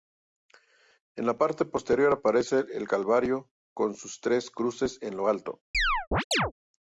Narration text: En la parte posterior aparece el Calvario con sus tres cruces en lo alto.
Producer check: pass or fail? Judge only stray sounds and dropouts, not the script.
fail